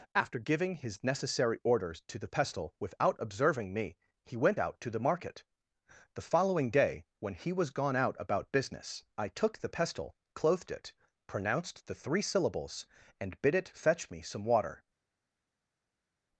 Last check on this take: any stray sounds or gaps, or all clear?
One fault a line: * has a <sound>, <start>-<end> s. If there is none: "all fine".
all fine